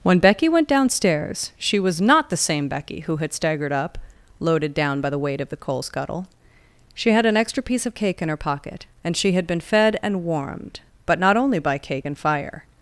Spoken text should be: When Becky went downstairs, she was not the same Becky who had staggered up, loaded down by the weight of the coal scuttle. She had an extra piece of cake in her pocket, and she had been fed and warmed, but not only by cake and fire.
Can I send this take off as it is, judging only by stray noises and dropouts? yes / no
yes